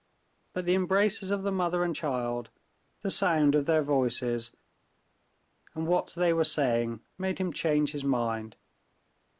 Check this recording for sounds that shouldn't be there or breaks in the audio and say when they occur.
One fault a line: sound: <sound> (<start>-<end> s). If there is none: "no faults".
no faults